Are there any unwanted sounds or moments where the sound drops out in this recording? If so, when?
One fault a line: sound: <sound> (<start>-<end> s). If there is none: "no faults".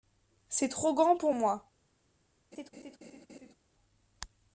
sound: laugh (2.5-3.5 s)